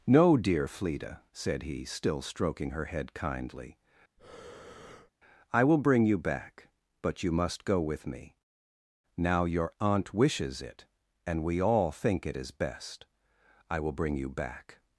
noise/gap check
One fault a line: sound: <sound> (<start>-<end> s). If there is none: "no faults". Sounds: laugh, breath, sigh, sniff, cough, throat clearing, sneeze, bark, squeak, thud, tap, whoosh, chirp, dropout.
sound: breath (4.2-5.1 s)